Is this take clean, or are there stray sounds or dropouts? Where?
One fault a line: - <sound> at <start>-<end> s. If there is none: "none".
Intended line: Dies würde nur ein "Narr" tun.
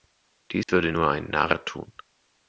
- dropout at 0.6-0.7 s